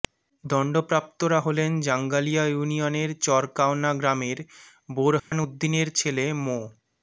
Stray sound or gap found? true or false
true